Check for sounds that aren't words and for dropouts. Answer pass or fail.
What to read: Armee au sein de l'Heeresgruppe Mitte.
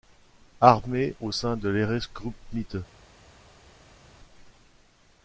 pass